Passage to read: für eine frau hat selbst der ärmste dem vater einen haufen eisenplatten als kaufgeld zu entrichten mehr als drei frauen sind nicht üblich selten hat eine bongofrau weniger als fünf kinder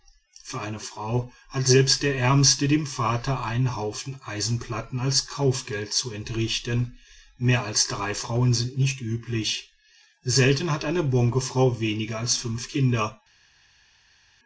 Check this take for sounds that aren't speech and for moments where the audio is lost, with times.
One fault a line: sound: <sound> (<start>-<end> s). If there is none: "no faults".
no faults